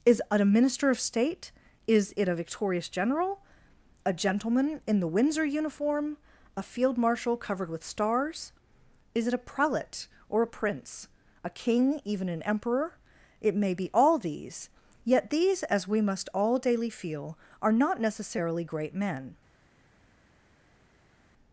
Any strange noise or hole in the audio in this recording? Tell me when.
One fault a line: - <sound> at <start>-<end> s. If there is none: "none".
none